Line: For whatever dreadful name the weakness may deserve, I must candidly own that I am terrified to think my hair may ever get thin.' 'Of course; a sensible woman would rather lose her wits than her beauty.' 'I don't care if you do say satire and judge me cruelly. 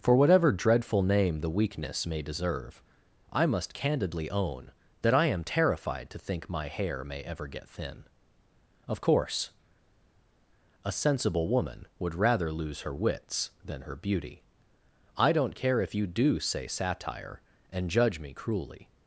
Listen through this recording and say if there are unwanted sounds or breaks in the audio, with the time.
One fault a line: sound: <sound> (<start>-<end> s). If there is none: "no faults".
no faults